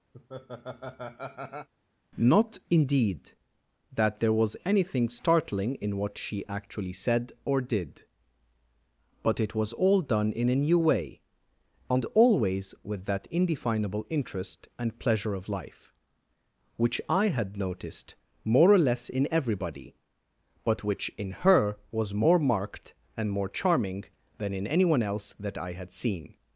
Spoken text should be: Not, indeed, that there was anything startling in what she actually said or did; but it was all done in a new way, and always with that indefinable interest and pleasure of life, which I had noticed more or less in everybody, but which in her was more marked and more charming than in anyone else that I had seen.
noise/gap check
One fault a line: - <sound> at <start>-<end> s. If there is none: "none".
- laugh at 0.1-1.7 s